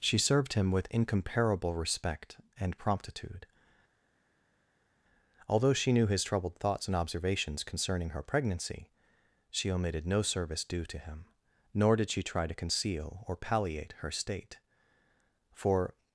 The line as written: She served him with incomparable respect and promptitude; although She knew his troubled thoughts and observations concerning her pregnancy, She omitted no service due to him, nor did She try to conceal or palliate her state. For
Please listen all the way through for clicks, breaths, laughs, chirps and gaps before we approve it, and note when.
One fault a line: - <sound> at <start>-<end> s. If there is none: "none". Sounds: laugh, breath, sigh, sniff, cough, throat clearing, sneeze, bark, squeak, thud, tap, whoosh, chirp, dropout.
none